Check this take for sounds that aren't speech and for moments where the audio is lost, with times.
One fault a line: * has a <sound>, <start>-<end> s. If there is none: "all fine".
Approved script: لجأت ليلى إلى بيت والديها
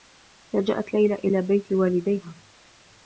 all fine